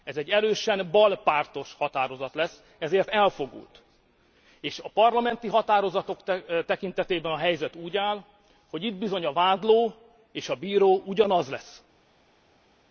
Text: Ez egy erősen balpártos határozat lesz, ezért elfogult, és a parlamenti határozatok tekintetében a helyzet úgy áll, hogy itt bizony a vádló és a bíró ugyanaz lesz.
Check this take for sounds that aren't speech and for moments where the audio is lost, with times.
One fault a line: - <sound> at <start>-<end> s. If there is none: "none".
none